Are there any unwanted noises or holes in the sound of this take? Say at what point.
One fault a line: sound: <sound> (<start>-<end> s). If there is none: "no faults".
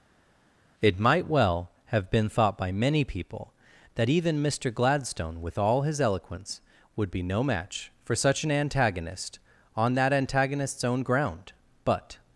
no faults